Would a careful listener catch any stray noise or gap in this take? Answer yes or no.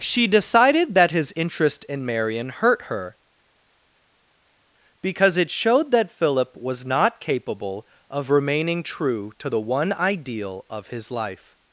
no